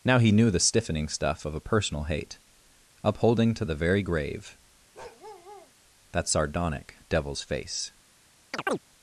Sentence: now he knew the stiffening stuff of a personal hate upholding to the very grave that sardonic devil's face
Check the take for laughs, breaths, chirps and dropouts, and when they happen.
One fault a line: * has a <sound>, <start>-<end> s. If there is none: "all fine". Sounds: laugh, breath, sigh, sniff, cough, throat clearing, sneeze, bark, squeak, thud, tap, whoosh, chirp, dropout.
* has a bark, 4.9-5.7 s
* has a chirp, 8.5-8.8 s